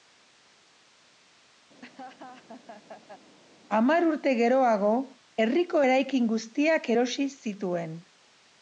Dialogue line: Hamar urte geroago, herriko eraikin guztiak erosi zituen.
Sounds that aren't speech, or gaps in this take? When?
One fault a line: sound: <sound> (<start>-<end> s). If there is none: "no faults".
sound: laugh (1.8-3.4 s)